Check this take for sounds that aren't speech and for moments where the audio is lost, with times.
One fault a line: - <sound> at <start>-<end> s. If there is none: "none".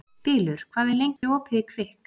- dropout at 1.2-1.2 s